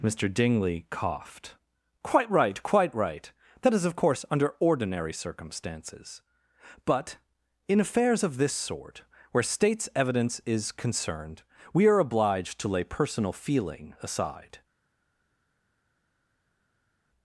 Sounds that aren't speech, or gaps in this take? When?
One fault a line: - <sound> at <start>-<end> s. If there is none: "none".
none